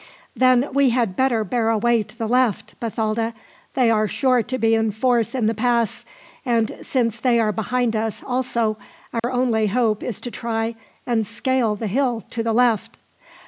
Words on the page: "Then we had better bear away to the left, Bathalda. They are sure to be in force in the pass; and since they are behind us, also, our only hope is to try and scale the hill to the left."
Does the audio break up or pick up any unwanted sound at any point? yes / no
yes